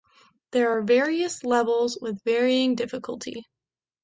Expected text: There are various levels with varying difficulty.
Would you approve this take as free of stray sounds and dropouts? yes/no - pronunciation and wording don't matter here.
yes